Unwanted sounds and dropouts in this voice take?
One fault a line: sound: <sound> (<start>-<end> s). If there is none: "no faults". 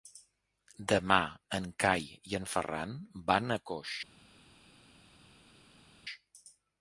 no faults